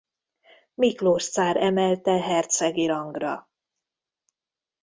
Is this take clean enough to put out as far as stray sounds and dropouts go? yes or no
yes